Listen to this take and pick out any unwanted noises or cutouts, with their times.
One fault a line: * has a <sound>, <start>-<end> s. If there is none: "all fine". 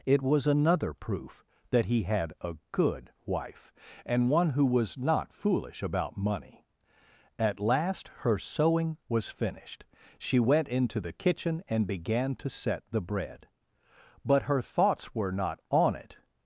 all fine